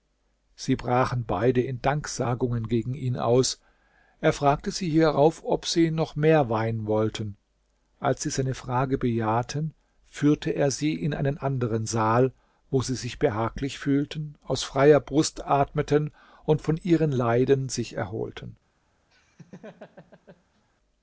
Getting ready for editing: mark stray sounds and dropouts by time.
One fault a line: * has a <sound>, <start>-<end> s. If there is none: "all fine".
* has a laugh, 19.1-20.7 s